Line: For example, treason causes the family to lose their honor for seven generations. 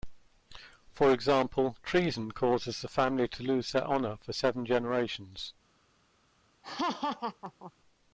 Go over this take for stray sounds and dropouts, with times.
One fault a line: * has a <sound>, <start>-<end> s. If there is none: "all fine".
* has a laugh, 6.6-7.7 s